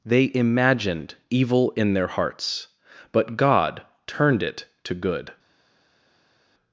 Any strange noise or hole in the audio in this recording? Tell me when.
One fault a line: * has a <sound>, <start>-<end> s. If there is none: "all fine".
all fine